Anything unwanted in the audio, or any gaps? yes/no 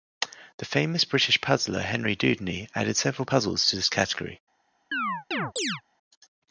yes